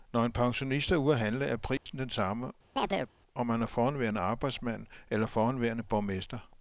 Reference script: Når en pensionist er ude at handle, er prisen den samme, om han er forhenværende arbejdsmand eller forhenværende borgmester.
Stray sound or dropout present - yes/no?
yes